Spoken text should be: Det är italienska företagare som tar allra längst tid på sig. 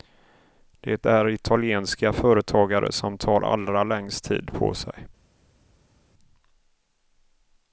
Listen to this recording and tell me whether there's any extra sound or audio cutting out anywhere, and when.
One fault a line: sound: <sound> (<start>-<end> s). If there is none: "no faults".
no faults